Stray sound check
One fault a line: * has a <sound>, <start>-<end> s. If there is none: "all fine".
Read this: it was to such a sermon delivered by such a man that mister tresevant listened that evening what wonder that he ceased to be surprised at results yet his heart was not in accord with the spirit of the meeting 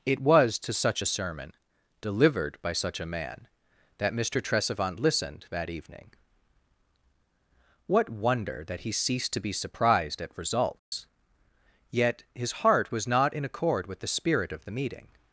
* has a dropout, 10.8-10.9 s